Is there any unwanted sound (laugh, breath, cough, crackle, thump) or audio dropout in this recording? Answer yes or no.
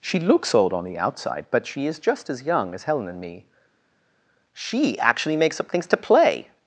no